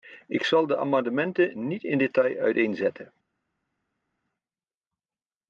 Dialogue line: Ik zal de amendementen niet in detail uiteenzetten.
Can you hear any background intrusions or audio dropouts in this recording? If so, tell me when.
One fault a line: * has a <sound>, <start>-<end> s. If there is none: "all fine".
all fine